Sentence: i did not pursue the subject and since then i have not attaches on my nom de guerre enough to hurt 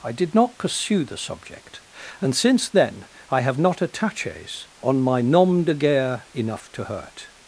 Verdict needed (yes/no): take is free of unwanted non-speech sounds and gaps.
yes